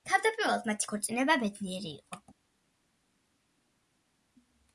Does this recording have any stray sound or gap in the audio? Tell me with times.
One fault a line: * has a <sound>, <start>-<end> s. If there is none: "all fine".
all fine